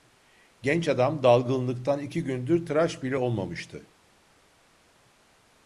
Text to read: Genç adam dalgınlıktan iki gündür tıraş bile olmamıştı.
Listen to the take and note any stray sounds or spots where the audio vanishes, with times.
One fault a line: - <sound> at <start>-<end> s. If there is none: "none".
none